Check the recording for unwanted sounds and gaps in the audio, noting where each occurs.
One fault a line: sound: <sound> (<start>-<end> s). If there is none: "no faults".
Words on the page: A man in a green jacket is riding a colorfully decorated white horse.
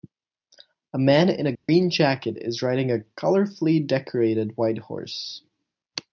sound: dropout (1.5-1.7 s)